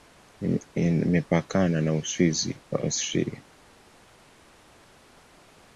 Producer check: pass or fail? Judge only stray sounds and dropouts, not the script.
pass